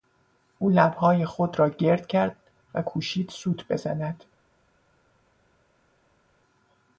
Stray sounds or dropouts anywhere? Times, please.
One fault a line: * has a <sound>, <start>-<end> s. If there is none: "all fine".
all fine